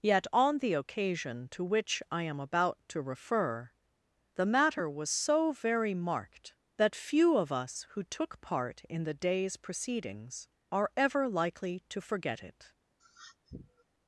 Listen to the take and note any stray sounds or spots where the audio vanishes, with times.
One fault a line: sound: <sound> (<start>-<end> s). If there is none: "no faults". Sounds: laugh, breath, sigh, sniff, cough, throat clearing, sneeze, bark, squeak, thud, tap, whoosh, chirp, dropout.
sound: sniff (13.0-13.8 s)